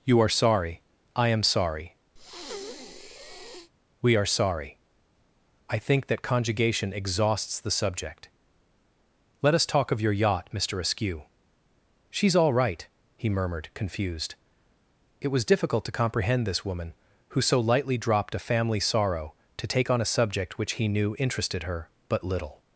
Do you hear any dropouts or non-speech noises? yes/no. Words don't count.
yes